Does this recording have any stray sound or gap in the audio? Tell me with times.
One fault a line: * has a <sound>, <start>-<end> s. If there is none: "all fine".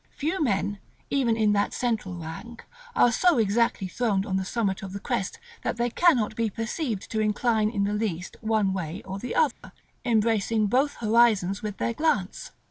* has a dropout, 9.5-9.6 s